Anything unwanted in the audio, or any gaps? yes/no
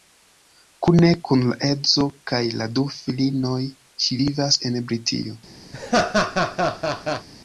yes